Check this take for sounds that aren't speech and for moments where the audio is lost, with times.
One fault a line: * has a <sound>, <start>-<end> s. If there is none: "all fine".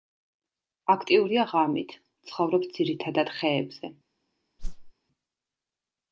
* has a whoosh, 4.6-4.9 s